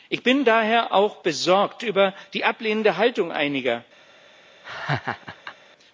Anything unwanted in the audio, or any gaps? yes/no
yes